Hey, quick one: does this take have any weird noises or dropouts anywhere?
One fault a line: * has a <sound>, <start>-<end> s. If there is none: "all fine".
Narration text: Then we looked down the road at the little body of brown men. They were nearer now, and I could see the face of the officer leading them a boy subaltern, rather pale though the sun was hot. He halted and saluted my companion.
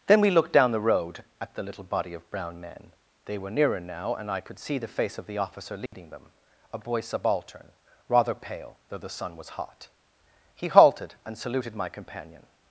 * has a dropout, 5.9-5.9 s